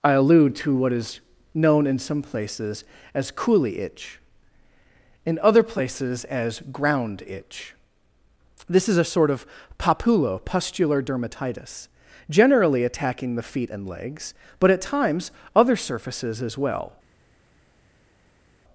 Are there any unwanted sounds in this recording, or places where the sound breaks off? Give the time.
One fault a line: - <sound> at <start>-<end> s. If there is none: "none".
none